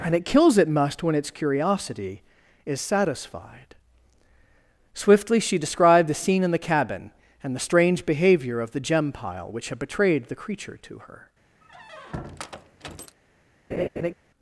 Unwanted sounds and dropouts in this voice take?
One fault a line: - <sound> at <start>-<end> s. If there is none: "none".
- squeak at 11.6-13.2 s
- laugh at 13.7-14.1 s